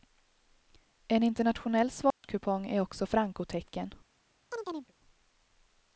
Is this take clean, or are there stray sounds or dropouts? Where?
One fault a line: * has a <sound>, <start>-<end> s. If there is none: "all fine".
* has a dropout, 2.1-2.2 s
* has a chirp, 4.5-4.9 s